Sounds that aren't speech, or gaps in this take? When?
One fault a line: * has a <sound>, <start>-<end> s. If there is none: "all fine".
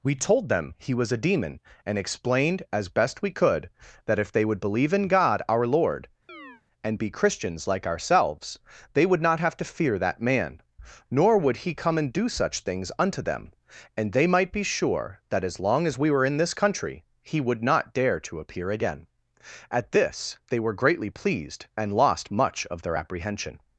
* has a chirp, 6.3-6.6 s